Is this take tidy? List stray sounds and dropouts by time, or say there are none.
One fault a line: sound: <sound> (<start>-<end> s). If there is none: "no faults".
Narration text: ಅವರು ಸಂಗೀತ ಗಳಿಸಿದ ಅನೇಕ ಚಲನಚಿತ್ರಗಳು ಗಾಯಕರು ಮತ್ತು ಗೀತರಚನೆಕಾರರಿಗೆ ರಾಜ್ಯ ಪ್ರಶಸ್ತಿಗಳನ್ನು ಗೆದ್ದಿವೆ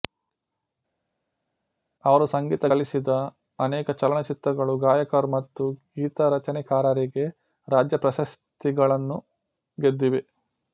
no faults